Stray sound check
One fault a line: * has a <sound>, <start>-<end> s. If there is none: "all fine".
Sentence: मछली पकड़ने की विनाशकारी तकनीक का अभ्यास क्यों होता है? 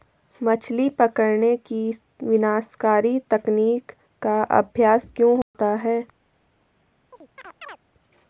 * has a dropout, 5.4-5.5 s
* has a chirp, 7.1-7.8 s